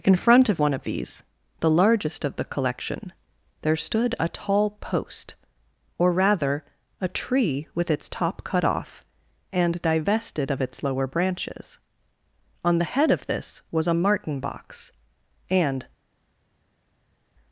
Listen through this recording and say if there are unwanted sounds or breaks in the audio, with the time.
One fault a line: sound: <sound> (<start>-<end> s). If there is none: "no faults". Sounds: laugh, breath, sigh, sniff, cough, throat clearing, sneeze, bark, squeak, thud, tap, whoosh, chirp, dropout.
no faults